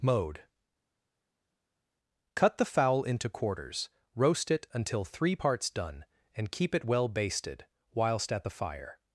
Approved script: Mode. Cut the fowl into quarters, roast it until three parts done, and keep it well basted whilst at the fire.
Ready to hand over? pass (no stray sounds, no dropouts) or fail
pass